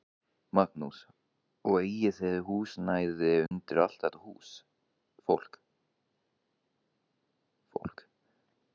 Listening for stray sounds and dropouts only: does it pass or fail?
fail